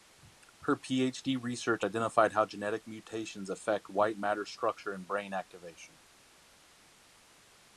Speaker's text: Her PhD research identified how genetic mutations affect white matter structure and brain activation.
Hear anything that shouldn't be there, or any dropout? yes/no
no